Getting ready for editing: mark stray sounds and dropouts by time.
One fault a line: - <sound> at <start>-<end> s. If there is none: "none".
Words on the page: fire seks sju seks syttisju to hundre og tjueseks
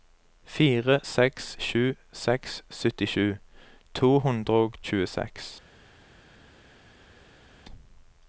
none